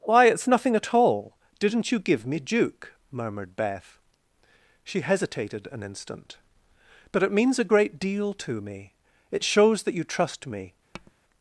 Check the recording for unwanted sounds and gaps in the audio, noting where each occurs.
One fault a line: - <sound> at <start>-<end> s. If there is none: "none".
- tap at 10.9-11.1 s